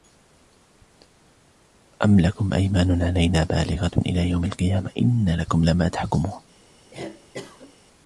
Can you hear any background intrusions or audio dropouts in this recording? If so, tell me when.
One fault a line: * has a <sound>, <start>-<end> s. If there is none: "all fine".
* has a cough, 6.9-7.7 s